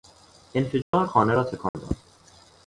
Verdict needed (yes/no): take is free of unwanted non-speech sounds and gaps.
no